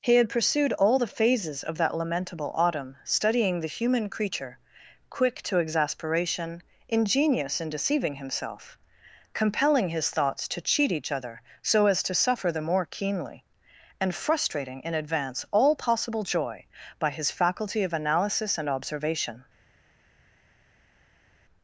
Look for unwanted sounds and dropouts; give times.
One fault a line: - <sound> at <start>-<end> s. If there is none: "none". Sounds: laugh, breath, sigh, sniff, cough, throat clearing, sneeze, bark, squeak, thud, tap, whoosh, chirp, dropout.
none